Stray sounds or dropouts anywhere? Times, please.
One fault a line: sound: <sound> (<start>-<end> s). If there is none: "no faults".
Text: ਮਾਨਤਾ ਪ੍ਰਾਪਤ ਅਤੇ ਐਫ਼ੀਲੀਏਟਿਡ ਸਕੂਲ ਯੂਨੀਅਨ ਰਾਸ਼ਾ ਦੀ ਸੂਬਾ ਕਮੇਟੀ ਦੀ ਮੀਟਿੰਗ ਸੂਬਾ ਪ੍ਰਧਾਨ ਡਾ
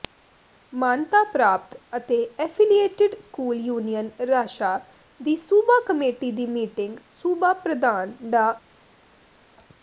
no faults